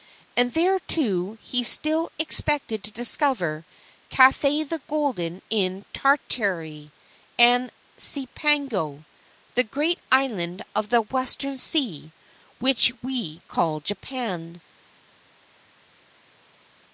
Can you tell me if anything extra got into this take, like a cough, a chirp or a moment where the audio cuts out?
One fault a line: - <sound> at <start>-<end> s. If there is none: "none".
none